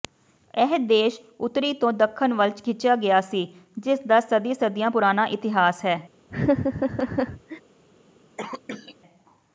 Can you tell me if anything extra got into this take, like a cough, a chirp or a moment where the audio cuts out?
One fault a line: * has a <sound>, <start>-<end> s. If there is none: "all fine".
* has a laugh, 6.3-7.6 s
* has a cough, 8.4-9.0 s